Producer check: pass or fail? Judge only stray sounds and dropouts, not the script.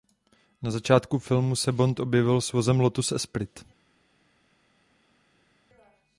pass